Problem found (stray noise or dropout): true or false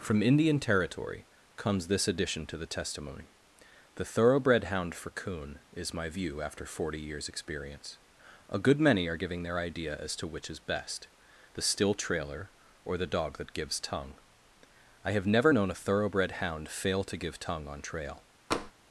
true